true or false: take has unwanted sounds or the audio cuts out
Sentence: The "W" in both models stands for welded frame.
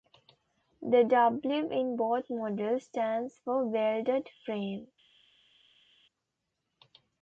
false